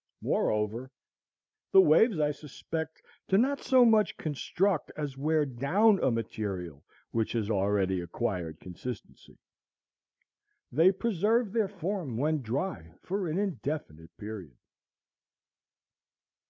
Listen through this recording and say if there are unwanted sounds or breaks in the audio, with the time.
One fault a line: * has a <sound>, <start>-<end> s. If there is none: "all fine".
all fine